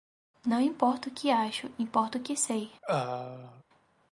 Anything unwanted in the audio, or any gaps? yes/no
yes